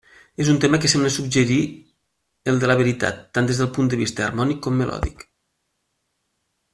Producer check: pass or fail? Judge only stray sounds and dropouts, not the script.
pass